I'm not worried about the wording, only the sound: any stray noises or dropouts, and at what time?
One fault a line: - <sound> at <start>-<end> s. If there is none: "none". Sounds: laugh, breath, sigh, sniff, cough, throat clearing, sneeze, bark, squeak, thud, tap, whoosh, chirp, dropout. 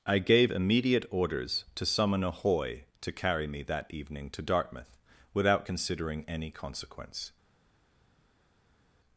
none